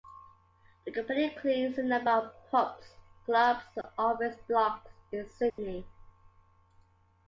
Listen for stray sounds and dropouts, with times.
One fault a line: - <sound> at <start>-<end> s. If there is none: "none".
- dropout at 3.8-3.8 s
- dropout at 5.5-5.6 s